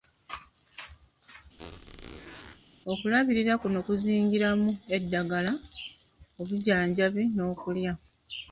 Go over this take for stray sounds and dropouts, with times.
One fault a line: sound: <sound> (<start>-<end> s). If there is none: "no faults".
sound: squeak (1.6-2.6 s)